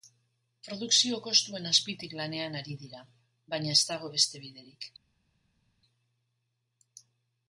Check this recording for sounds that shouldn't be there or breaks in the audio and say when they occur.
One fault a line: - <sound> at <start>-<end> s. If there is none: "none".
none